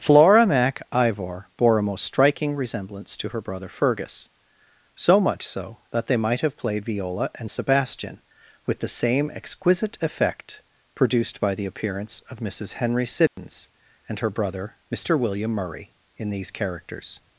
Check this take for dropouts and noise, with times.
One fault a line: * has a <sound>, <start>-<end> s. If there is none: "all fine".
* has a dropout, 13.3-13.4 s